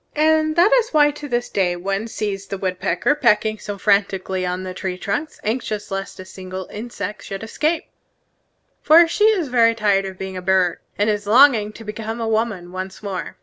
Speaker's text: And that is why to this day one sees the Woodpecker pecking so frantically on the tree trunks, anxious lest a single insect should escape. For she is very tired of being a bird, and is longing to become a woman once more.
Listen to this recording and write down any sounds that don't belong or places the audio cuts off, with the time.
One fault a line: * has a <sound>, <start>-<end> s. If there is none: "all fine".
all fine